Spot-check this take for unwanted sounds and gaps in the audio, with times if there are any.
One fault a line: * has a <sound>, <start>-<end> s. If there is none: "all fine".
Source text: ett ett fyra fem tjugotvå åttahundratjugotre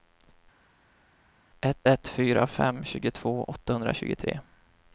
all fine